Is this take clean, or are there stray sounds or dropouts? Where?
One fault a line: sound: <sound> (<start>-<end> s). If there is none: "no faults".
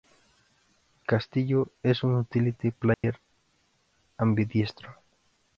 sound: dropout (2.9-3.0 s)